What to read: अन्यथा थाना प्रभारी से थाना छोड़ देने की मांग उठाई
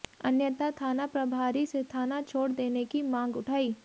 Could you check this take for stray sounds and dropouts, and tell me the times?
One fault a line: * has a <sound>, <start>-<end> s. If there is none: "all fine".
all fine